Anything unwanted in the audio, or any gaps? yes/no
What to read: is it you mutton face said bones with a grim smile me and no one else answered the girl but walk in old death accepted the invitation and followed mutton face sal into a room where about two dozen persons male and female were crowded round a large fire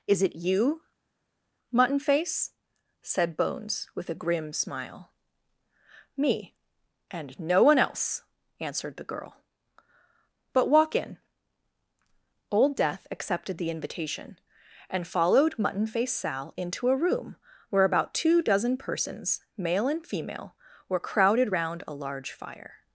no